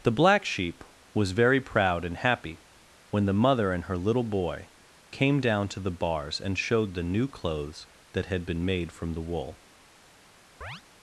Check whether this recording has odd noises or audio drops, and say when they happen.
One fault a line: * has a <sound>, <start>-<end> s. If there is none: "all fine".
* has a chirp, 10.6-10.8 s